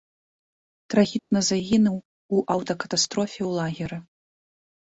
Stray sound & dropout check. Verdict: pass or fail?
fail